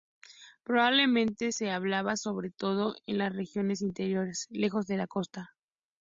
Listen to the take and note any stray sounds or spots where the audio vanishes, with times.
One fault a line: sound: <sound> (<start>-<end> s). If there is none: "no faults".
no faults